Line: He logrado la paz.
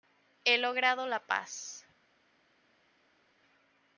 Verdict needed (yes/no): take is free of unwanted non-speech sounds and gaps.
yes